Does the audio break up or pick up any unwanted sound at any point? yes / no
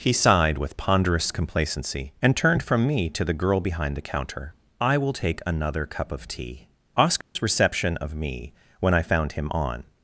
yes